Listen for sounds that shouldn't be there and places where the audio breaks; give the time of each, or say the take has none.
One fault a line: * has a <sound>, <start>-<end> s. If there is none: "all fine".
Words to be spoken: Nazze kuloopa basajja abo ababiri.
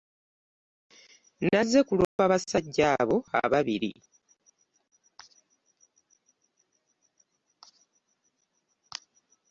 * has a dropout, 2.0-2.2 s